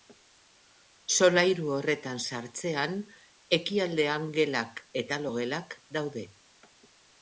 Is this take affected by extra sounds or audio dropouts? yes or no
no